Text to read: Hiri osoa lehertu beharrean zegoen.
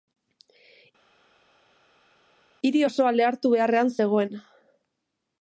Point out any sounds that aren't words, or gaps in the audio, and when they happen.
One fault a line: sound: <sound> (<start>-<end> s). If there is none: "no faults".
no faults